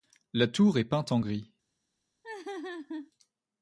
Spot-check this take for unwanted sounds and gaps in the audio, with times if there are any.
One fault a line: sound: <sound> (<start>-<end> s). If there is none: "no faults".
sound: laugh (2.2-3.1 s)